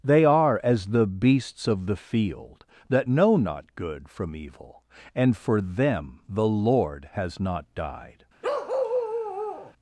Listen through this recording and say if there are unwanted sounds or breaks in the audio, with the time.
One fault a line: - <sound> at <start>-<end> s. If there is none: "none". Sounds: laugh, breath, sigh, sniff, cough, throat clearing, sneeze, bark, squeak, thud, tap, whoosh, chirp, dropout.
- bark at 8.4-9.7 s